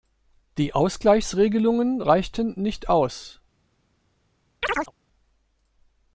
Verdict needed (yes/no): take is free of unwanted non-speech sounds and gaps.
no